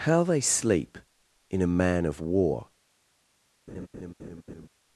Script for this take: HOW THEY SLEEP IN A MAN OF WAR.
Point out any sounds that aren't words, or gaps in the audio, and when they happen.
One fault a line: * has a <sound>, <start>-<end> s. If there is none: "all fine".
* has a laugh, 3.7-4.7 s